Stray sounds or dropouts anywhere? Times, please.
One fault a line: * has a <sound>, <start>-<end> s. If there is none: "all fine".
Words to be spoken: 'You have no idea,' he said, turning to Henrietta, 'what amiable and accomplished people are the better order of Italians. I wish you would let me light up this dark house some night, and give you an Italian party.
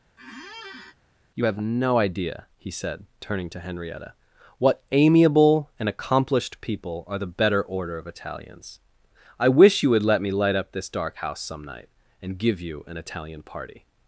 * has a squeak, 0.2-0.9 s